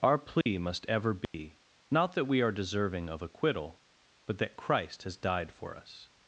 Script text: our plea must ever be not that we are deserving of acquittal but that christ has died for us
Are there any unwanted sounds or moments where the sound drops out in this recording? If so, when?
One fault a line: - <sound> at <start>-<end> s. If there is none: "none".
- dropout at 0.4-0.5 s
- dropout at 1.2-1.3 s